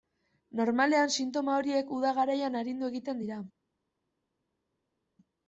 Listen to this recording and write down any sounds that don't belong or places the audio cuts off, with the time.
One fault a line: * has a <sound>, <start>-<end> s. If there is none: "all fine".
all fine